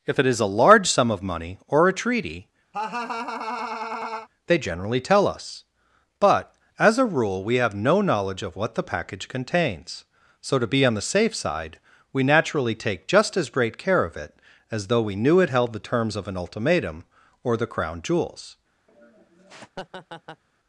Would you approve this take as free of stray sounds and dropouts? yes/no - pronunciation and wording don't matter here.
no